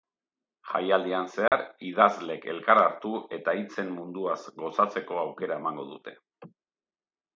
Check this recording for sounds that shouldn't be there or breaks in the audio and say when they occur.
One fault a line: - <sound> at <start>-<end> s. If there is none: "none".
- dropout at 1.5-1.5 s